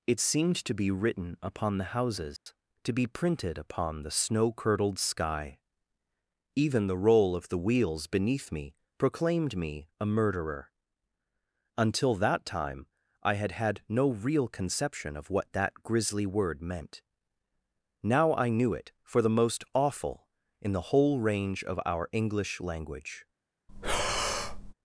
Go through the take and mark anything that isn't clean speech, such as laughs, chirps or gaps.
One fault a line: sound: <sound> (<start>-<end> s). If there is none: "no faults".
sound: dropout (2.4-2.5 s)
sound: breath (23.7-24.7 s)